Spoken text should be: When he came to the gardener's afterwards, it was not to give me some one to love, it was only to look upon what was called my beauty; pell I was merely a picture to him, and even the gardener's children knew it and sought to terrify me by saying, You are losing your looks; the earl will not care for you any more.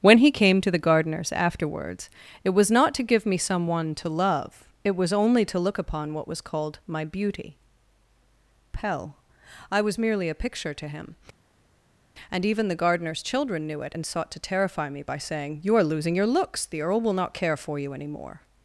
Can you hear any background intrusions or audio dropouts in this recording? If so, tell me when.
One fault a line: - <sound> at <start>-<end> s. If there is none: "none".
none